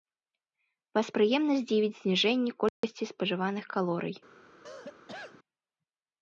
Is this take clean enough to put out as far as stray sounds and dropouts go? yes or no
no